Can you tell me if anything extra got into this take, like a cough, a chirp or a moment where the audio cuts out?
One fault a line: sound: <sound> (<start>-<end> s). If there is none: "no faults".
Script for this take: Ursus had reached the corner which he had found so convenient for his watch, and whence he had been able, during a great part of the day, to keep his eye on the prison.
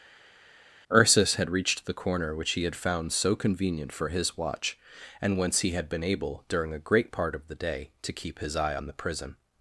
no faults